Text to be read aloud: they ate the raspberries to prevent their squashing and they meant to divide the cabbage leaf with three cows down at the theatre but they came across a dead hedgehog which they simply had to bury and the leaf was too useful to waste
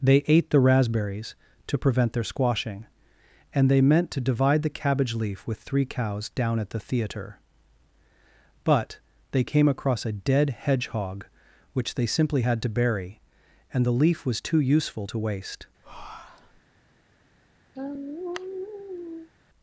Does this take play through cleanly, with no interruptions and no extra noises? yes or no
no